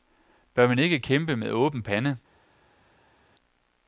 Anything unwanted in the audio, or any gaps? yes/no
no